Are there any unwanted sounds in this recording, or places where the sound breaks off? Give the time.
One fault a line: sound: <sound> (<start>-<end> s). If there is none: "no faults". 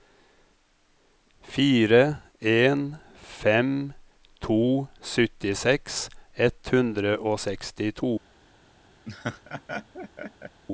sound: laugh (9.1-10.6 s)